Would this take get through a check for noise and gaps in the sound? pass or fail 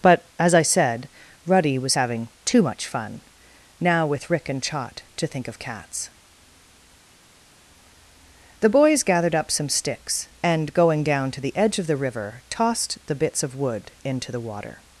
pass